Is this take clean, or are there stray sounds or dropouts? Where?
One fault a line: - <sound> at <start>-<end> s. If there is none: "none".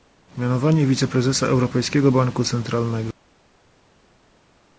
none